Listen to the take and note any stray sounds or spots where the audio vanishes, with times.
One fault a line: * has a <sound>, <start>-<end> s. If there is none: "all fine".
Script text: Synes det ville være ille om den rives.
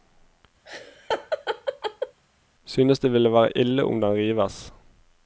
* has a laugh, 0.6-2.2 s